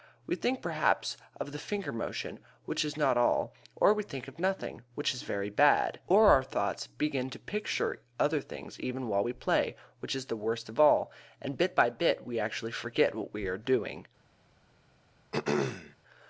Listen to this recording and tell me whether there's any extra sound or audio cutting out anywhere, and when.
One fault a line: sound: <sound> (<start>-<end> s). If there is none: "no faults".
sound: throat clearing (15.3-16.0 s)